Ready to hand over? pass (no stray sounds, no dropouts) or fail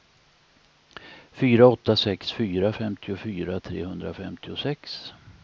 pass